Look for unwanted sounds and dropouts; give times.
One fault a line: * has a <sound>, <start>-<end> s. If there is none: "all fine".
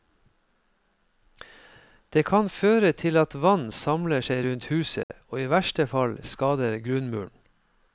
* has a dropout, 5.0-5.1 s